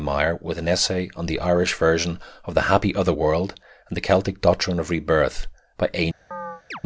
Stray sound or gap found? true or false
true